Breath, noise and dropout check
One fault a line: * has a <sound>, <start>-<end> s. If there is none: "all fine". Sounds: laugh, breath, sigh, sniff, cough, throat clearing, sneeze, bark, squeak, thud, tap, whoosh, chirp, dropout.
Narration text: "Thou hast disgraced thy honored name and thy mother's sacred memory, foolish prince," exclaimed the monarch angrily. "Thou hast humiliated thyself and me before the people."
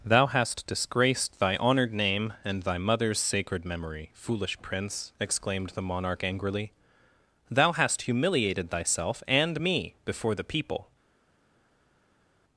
all fine